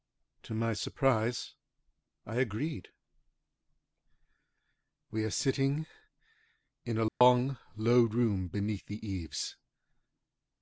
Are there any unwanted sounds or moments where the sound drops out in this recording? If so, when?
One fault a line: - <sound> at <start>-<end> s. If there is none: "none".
- dropout at 7.1-7.2 s